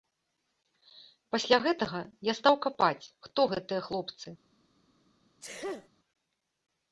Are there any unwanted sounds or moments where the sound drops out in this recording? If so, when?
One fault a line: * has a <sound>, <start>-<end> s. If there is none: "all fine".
* has a sneeze, 5.4-5.9 s